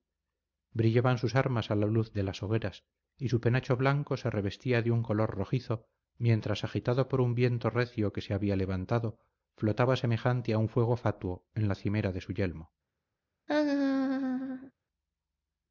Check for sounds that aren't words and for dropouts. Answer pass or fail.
fail